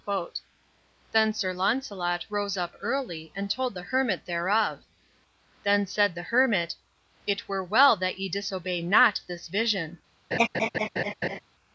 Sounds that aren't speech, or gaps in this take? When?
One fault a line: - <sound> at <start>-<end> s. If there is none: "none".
- laugh at 10.3-11.4 s